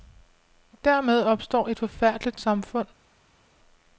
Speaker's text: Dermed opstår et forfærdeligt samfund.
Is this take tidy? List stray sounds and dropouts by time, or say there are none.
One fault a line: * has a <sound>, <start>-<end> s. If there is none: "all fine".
all fine